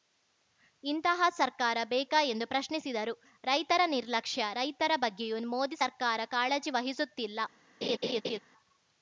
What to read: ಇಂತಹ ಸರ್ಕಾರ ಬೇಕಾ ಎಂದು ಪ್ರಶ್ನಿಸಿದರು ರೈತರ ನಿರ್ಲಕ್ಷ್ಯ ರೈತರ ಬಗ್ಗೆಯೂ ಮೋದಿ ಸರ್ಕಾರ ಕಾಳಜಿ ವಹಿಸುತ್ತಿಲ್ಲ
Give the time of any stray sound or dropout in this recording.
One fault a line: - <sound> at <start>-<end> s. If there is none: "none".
- laugh at 7.8-8.4 s